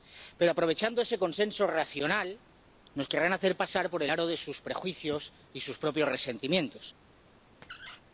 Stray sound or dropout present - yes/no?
yes